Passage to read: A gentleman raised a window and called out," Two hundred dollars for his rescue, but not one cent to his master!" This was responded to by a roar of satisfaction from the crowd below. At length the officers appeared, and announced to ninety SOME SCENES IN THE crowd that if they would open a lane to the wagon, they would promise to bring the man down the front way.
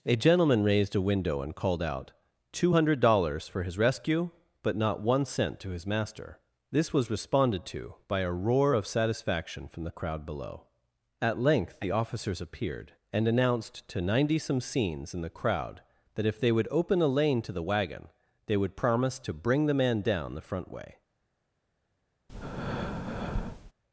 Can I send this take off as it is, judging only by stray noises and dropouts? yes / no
no